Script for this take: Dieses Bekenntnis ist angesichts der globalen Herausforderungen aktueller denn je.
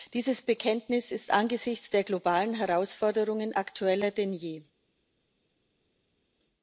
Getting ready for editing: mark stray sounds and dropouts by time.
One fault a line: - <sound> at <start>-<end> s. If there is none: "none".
none